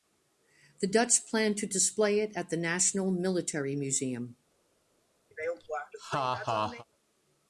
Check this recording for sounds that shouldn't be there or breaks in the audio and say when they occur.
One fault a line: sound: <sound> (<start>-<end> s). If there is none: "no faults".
sound: laugh (5.3-6.8 s)